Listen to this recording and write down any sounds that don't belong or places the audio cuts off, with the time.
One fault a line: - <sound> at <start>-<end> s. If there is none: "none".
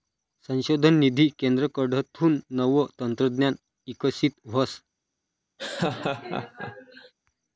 - laugh at 5.6-7.1 s